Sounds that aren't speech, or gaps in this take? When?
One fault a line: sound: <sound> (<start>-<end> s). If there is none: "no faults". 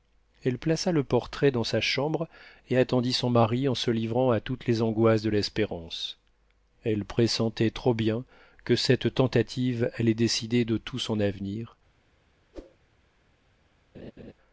sound: whoosh (12.5-12.8 s)
sound: laugh (13.9-14.3 s)